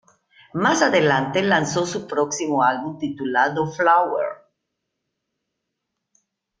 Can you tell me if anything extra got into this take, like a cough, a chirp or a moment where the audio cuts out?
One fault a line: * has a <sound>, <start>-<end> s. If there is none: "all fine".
all fine